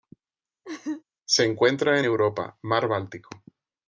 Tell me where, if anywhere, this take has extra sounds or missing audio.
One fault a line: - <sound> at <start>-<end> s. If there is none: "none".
- laugh at 0.6-1.0 s